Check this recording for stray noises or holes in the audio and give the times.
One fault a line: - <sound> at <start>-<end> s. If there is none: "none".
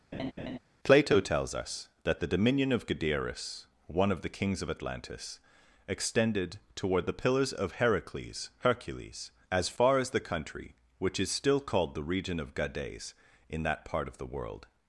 - laugh at 0.1-0.6 s